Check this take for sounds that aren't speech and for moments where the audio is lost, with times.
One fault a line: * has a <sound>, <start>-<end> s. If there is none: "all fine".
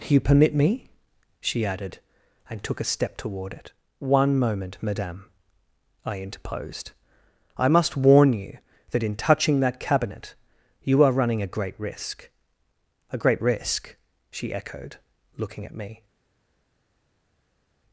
all fine